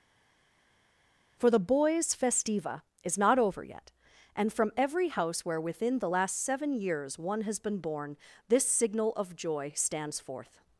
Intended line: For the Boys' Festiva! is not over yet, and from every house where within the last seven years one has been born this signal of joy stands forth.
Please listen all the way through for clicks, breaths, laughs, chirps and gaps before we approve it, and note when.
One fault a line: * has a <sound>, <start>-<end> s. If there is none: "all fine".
all fine